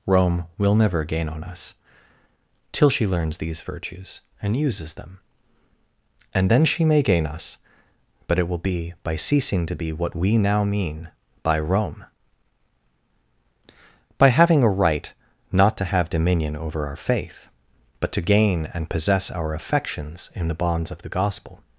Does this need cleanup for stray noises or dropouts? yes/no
no